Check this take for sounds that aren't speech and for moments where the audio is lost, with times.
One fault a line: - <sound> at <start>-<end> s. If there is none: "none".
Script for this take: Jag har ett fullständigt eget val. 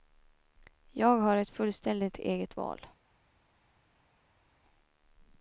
none